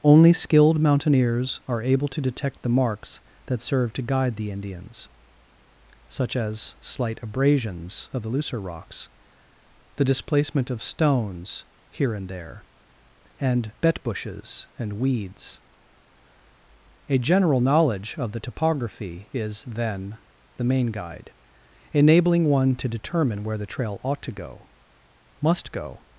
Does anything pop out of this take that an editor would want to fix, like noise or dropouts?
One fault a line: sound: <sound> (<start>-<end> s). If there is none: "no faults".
no faults